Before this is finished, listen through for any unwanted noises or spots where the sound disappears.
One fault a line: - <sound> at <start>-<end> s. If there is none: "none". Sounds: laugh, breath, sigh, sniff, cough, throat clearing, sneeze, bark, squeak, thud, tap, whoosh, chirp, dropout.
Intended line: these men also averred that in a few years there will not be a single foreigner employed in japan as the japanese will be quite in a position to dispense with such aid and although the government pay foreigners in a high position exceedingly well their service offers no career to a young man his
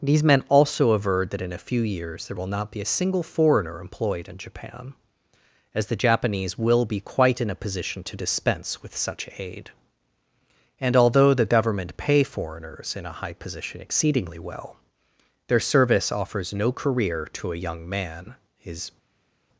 none